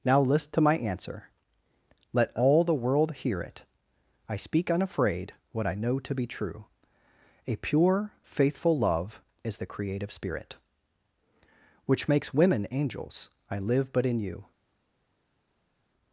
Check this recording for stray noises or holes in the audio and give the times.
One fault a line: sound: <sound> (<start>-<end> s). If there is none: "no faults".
no faults